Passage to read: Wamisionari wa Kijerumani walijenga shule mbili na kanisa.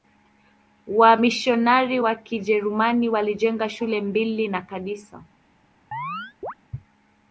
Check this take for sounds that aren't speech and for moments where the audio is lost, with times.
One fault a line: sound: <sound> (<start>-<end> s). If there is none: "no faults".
sound: chirp (5.9-6.5 s)